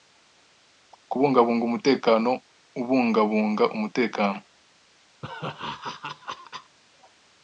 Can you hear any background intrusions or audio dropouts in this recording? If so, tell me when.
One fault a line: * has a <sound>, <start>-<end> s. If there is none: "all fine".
* has a laugh, 5.2-6.8 s